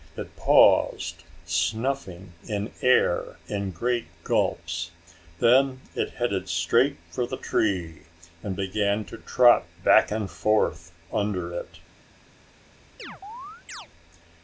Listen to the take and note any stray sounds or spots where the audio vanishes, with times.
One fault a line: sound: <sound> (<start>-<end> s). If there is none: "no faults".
sound: chirp (13.0-13.9 s)